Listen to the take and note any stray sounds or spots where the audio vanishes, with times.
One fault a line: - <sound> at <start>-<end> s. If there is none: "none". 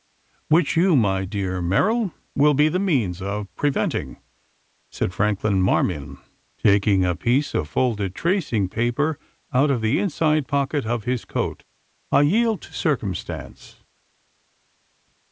none